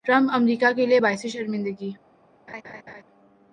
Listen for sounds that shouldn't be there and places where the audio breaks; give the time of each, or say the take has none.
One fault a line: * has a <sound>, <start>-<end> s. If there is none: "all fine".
* has a laugh, 2.5-3.0 s